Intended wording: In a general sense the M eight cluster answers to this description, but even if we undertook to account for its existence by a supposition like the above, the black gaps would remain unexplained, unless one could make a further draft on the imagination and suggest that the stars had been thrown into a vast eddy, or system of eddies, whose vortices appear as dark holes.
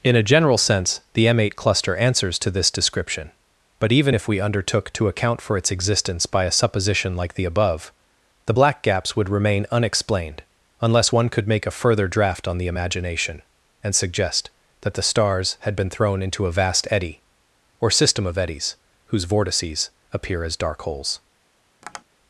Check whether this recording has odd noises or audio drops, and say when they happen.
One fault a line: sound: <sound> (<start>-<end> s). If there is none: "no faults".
sound: tap (21.8-22.0 s)